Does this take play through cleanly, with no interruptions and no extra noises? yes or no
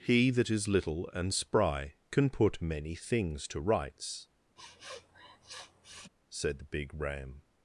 no